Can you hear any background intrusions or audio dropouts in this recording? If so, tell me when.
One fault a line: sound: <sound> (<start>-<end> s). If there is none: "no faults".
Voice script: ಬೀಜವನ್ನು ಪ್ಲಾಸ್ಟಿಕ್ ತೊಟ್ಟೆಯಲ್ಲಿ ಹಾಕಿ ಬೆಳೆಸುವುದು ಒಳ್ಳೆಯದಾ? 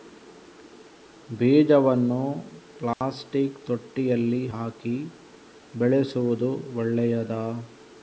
sound: dropout (2.9-3.0 s)